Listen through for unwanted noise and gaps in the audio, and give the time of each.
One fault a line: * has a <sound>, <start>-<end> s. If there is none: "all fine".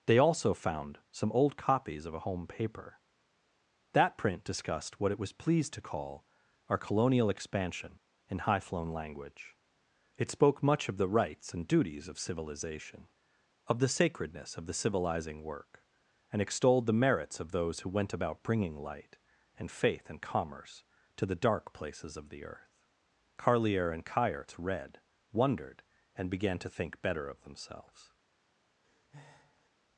* has a breath, 28.8-29.7 s